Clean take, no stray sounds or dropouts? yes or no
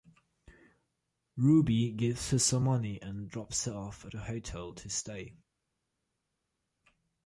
yes